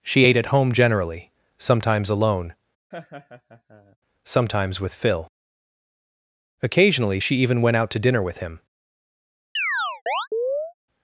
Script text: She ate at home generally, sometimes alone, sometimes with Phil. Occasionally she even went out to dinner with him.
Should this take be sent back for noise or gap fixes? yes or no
yes